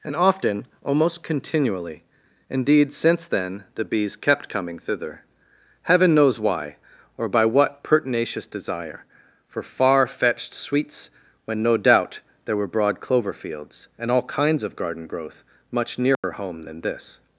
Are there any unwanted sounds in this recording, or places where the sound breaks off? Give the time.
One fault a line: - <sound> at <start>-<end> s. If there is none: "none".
- dropout at 16.1-16.2 s